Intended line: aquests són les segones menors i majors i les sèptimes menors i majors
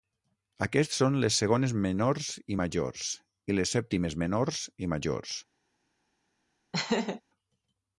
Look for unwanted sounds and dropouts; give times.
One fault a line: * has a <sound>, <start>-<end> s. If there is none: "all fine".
* has a laugh, 6.7-7.2 s